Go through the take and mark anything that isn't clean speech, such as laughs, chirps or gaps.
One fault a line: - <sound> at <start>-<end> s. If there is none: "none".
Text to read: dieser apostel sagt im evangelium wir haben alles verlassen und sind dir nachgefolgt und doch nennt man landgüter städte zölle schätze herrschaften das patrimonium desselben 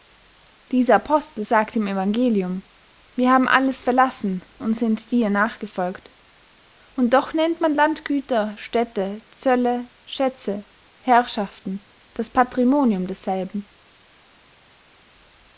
none